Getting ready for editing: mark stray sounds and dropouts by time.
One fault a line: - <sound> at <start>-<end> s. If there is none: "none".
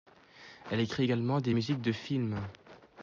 none